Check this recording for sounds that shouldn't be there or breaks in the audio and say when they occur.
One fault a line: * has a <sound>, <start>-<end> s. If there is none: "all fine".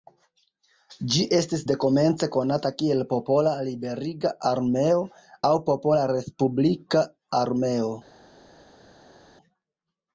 all fine